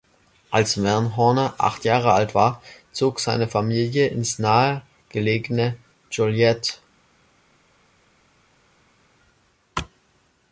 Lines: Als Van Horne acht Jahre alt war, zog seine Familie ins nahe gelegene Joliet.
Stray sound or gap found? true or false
false